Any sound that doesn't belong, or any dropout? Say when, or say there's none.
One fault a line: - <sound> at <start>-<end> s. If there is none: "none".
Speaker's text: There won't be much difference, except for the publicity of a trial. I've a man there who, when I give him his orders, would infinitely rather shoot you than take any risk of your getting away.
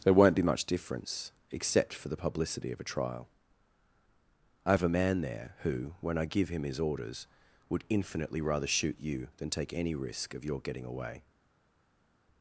none